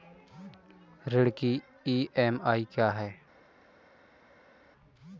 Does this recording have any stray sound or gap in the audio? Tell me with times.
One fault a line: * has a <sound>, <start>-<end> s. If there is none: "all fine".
all fine